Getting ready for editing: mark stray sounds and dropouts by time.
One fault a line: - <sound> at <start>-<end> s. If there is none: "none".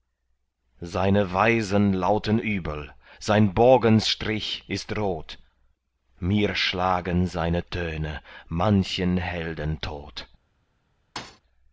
- thud at 11.2-11.4 s